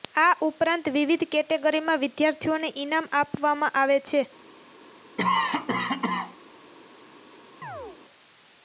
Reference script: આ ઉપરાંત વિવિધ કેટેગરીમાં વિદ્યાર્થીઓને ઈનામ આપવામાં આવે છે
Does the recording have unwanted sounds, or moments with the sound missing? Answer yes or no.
yes